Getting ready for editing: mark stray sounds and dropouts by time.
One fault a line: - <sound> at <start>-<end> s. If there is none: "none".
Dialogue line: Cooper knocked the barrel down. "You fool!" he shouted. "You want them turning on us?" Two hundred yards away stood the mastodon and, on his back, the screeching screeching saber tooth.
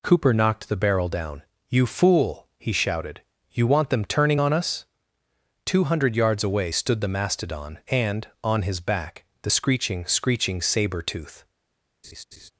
- laugh at 12.0-12.5 s